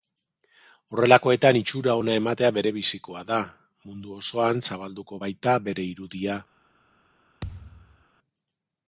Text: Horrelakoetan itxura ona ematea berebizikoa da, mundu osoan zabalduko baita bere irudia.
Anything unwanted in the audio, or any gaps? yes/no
yes